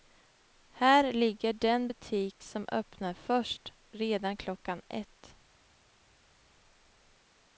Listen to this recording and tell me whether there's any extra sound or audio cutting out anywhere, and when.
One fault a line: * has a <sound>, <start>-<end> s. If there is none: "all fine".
all fine